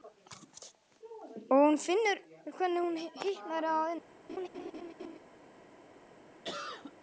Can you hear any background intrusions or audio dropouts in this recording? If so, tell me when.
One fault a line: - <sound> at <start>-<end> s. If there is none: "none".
- laugh at 4.3-5.2 s
- cough at 6.4-6.9 s